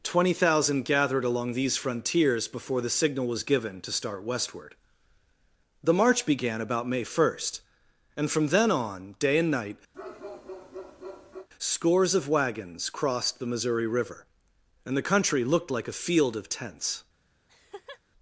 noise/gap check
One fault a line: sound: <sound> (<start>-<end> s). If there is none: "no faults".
sound: bark (9.9-11.5 s)
sound: laugh (17.5-18.0 s)